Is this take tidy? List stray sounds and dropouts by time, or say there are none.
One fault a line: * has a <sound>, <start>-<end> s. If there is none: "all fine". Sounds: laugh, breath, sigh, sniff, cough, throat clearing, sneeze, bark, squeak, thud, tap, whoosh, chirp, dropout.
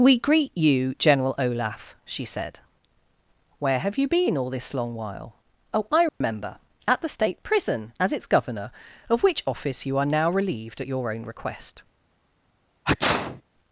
* has a dropout, 6.1-6.2 s
* has a sneeze, 12.8-13.4 s